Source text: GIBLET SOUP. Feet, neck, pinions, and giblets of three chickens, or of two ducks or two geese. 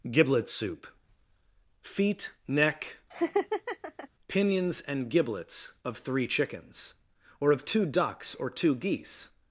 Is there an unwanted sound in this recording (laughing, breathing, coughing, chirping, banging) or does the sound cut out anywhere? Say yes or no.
yes